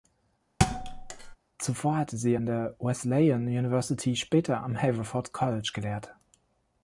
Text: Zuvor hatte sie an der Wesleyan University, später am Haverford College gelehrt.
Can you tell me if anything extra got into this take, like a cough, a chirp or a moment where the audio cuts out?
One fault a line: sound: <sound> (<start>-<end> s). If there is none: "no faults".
sound: thud (0.6-1.4 s)